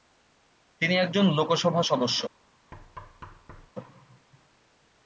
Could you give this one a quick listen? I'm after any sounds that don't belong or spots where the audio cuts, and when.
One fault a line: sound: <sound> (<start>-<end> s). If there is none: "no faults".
sound: thud (2.7-3.7 s)